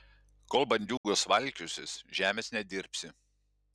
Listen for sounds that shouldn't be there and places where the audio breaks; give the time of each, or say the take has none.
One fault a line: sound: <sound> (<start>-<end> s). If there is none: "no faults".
sound: dropout (1.0-1.0 s)